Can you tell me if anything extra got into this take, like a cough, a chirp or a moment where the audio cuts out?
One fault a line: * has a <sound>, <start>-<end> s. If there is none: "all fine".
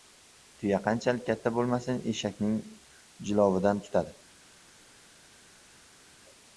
all fine